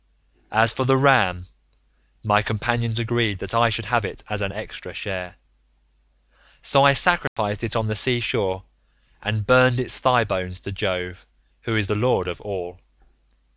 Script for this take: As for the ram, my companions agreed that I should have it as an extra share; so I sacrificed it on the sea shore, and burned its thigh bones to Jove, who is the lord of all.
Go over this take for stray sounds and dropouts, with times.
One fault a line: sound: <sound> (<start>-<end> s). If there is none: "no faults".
sound: dropout (7.3-7.4 s)